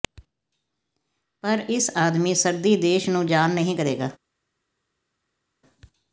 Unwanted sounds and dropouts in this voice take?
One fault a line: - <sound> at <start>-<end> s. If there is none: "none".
none